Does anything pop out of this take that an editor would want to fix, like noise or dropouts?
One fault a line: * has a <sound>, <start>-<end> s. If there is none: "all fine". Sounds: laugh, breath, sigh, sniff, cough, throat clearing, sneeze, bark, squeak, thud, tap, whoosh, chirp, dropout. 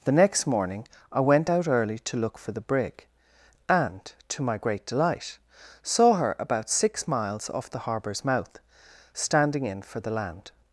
all fine